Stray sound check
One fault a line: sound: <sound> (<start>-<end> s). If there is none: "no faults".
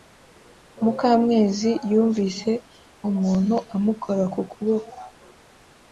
no faults